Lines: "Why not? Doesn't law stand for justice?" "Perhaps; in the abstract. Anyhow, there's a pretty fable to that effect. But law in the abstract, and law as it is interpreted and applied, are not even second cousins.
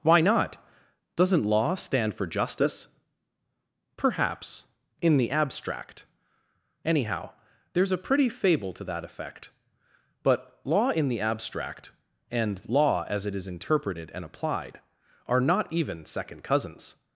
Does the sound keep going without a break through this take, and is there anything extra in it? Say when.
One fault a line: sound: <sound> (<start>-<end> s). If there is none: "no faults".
no faults